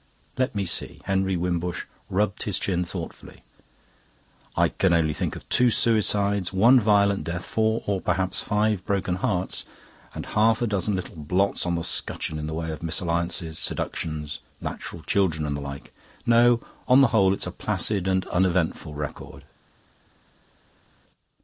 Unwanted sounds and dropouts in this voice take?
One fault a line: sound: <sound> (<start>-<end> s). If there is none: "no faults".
no faults